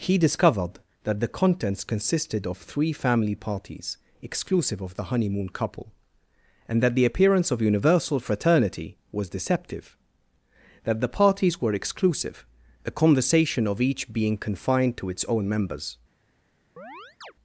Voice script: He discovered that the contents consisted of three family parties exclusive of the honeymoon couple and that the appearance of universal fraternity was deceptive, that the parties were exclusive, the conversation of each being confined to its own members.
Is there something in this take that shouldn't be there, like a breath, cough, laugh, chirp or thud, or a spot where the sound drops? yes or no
yes